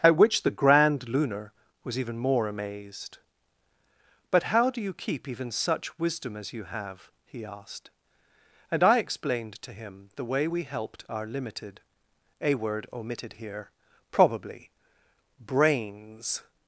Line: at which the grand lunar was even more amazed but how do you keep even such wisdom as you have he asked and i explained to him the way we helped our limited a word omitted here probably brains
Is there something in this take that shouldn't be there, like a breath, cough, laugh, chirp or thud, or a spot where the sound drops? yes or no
no